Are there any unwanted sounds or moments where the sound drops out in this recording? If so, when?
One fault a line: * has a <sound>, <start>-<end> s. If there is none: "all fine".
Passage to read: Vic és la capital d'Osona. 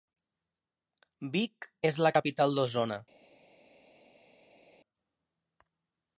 all fine